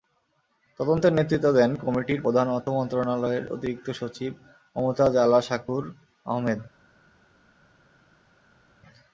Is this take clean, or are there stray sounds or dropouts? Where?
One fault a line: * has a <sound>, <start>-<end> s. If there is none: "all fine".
all fine